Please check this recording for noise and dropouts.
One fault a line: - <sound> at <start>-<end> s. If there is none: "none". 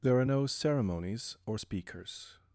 none